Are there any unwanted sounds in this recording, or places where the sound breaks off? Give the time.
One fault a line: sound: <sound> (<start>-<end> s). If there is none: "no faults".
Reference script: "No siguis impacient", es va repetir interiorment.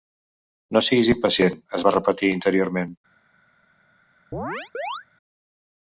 sound: chirp (4.3-5.1 s)